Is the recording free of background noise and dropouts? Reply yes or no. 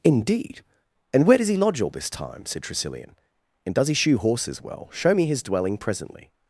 yes